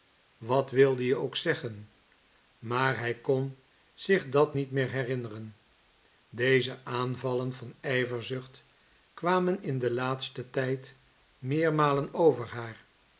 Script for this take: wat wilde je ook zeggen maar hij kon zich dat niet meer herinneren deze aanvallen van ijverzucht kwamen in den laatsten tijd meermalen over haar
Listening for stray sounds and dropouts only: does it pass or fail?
pass